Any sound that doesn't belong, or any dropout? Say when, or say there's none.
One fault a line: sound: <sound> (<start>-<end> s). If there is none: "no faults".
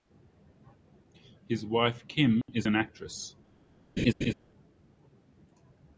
sound: dropout (2.4-2.5 s)
sound: laugh (4.0-4.3 s)